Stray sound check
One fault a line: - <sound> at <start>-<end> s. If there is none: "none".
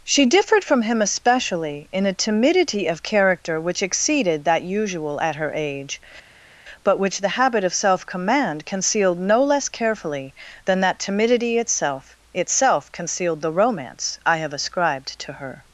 none